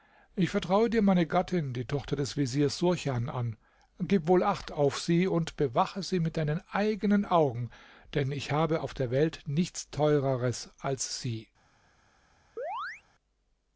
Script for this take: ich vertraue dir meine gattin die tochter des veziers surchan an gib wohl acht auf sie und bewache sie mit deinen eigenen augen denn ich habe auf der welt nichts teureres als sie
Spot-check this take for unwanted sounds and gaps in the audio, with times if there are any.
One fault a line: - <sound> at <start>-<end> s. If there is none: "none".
- chirp at 12.6-13.0 s